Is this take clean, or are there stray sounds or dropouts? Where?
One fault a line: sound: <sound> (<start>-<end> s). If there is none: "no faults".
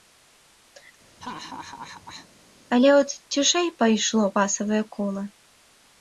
sound: laugh (1.2-2.3 s)